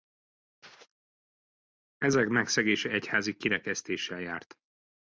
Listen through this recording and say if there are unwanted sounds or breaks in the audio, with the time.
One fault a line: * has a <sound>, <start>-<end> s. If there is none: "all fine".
all fine